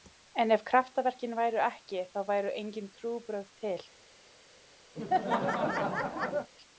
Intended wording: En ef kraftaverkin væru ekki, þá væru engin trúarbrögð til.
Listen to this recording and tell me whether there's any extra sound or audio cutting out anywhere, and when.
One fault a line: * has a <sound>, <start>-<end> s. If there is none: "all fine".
* has a laugh, 4.9-6.5 s